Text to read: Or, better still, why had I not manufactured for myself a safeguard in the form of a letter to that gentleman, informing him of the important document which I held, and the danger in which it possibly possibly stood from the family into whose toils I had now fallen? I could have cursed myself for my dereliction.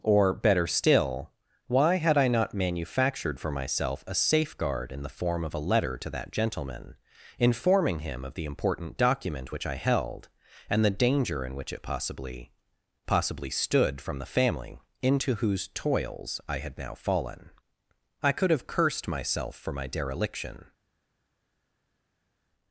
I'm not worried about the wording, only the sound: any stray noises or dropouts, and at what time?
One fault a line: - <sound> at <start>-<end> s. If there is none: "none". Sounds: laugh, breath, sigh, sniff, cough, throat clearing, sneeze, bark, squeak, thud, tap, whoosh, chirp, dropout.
none